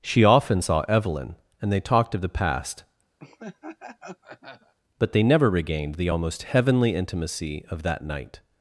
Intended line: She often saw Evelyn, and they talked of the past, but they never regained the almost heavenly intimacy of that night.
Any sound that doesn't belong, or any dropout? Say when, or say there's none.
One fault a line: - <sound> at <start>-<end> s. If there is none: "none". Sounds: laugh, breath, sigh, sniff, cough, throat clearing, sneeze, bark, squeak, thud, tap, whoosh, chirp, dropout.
- laugh at 3.2-4.7 s